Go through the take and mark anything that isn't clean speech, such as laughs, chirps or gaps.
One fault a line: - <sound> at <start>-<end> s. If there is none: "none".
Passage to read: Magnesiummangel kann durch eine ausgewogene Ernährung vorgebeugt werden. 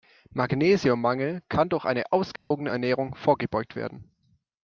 - dropout at 2.4-2.5 s